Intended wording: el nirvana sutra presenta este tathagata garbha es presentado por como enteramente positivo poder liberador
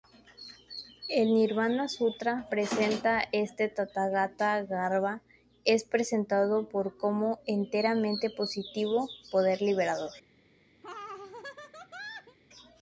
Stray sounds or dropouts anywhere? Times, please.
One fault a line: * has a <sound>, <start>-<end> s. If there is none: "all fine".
* has a laugh, 10.8-12.4 s